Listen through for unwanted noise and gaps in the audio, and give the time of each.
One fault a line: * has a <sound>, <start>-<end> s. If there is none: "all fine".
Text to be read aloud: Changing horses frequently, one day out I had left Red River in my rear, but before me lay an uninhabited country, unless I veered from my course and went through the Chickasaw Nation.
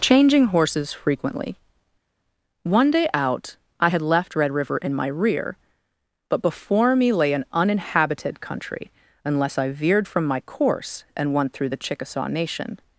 all fine